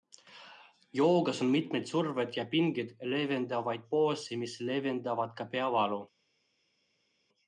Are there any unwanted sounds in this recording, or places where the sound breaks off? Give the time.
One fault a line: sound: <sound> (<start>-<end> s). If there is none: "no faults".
no faults